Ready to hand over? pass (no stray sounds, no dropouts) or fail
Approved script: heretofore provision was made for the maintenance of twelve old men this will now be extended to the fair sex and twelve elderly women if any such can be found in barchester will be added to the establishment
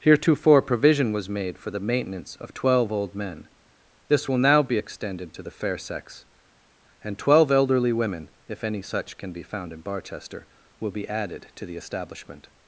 pass